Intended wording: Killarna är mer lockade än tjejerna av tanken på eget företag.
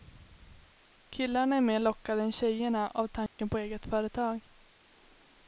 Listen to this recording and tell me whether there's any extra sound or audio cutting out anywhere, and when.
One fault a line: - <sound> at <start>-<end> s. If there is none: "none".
- dropout at 3.3-3.4 s